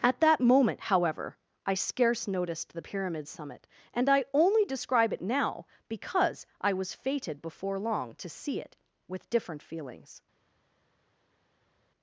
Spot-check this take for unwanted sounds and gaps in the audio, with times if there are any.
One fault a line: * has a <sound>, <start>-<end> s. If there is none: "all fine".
all fine